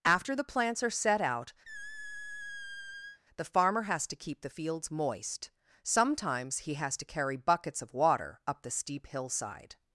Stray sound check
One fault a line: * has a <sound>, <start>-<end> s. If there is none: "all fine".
* has a squeak, 1.6-3.2 s